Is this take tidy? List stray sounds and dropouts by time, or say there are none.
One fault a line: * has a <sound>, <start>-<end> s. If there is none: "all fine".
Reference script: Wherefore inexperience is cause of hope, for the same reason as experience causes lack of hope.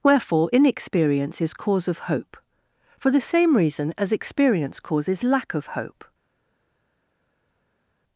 all fine